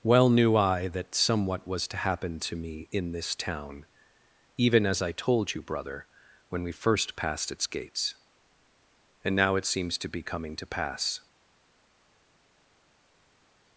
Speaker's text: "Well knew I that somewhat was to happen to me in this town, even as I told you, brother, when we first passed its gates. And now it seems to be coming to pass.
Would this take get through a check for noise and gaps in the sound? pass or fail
pass